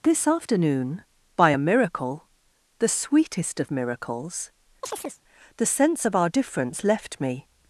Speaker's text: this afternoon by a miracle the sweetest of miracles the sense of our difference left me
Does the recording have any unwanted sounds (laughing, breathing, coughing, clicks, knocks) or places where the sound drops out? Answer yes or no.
yes